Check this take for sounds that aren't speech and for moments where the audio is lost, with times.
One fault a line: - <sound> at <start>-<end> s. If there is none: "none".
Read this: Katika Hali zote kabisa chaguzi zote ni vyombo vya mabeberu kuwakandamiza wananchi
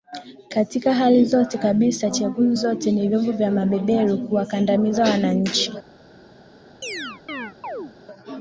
- chirp at 6.8-7.9 s